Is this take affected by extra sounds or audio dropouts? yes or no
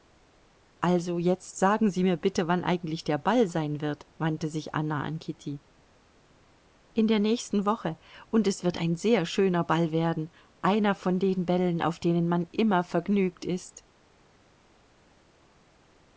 no